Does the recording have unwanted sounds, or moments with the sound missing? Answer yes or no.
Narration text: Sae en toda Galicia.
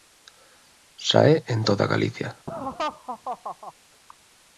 yes